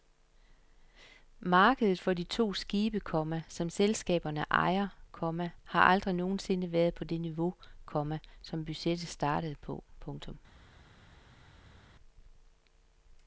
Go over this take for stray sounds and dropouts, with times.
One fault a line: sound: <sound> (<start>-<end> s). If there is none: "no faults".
no faults